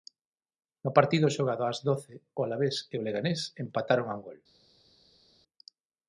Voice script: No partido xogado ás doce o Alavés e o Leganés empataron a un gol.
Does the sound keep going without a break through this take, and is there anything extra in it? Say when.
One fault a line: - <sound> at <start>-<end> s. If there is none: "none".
none